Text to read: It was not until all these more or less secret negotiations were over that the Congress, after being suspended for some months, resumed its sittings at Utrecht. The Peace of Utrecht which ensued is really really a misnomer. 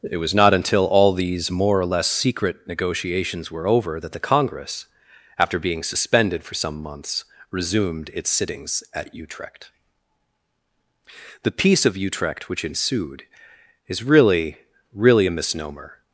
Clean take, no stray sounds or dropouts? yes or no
yes